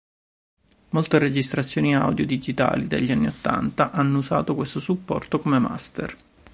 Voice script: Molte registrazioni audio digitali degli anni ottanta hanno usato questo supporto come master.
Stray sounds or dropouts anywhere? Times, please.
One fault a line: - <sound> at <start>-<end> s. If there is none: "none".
none